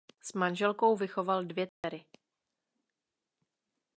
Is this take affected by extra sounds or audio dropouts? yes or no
yes